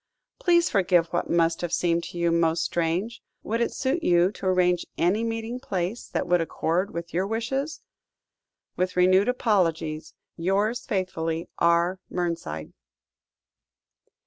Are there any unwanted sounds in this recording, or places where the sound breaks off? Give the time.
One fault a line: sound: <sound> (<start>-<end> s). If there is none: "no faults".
no faults